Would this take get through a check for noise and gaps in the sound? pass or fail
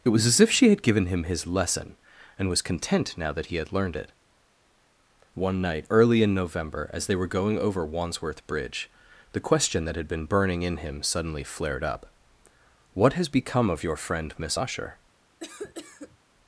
fail